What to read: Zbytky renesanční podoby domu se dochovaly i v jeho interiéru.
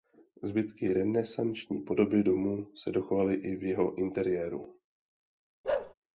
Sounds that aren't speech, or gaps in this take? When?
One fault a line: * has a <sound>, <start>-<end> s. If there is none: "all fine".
* has a bark, 5.6-5.9 s